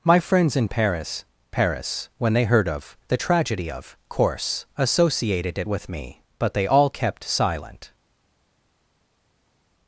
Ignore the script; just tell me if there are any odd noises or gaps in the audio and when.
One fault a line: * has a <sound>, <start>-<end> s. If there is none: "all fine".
all fine